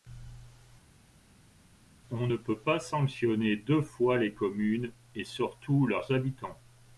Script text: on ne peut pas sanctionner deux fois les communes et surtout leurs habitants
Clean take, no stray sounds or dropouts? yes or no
yes